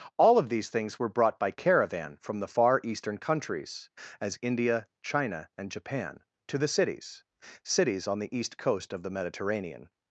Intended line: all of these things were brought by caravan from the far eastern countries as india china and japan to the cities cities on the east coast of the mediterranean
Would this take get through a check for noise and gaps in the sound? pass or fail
pass